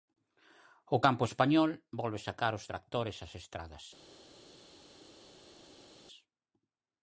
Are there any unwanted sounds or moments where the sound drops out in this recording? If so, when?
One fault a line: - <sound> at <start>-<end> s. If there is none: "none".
none